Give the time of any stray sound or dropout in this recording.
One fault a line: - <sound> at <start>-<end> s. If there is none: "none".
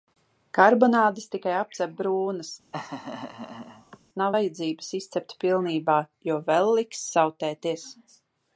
- laugh at 2.7-4.0 s